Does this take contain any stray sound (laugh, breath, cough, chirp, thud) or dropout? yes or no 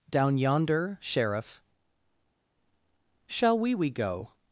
no